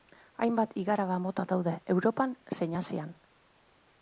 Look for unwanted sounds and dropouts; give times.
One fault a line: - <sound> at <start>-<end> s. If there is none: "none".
none